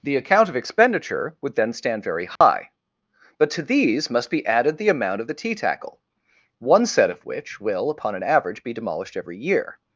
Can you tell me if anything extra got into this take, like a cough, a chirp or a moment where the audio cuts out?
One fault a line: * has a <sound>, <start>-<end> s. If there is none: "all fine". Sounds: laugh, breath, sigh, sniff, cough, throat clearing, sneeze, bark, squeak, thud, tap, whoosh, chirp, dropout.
* has a dropout, 2.4-2.4 s